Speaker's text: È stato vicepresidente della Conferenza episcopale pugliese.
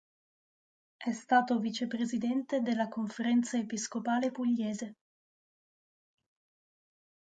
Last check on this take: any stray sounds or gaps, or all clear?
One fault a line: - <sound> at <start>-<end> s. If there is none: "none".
none